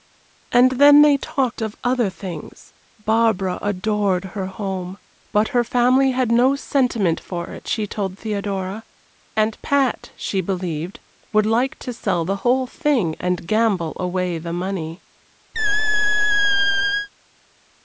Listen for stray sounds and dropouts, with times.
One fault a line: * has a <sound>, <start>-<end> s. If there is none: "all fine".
* has a squeak, 15.5-17.1 s